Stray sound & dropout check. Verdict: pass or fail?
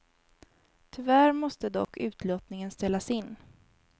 fail